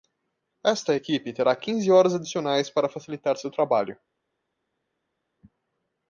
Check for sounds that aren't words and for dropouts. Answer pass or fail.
pass